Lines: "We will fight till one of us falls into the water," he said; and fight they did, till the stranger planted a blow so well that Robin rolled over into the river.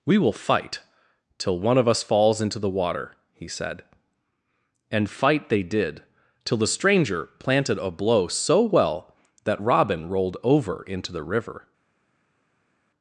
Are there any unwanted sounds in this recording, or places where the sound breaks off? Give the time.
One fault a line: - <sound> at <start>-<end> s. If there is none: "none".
none